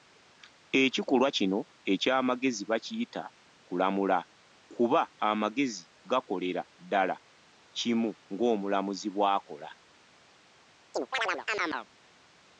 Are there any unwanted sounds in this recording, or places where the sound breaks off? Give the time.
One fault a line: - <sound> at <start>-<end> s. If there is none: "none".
- chirp at 10.9-11.9 s